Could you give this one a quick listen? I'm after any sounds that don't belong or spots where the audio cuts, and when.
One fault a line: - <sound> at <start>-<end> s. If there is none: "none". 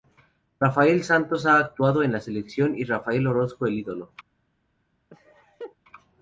- laugh at 5.1-5.8 s